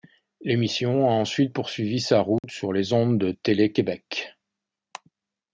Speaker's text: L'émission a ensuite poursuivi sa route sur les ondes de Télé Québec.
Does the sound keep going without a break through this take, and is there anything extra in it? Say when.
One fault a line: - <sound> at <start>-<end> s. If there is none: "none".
- dropout at 2.4-2.4 s